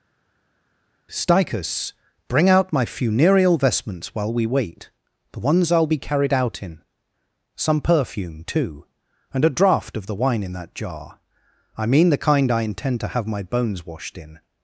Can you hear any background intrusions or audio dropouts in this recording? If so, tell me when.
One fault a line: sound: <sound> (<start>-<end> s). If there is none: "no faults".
no faults